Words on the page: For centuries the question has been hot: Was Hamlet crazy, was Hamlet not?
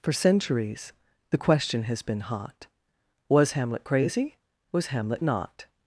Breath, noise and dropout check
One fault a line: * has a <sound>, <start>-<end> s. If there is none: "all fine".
all fine